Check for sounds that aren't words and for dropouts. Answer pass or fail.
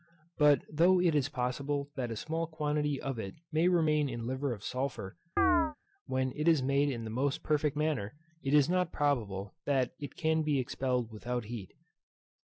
fail